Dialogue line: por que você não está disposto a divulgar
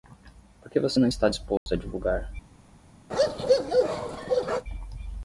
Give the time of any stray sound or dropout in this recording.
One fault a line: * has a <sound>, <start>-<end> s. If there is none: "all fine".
* has a dropout, 1.6-1.7 s
* has a bark, 3.1-4.6 s